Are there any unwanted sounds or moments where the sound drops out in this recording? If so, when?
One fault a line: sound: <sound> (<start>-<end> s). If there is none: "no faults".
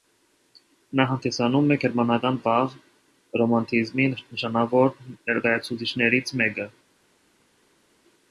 no faults